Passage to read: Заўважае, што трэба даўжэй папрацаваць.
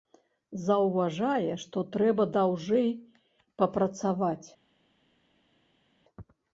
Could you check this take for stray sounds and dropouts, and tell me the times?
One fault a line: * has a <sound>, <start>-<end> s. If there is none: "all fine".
all fine